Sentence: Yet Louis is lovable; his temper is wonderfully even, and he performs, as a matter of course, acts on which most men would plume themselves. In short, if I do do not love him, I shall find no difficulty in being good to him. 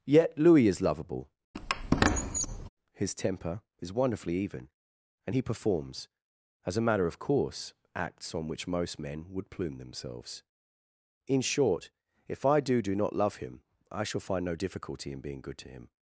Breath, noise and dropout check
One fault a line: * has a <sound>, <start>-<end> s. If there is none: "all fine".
* has a squeak, 1.5-2.7 s